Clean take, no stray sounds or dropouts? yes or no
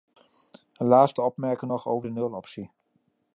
yes